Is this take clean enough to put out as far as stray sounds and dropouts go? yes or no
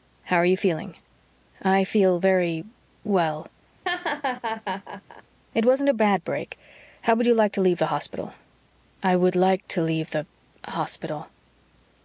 no